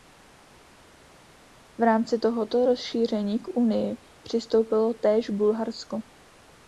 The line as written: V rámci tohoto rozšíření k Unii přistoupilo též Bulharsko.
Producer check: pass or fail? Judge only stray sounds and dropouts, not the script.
pass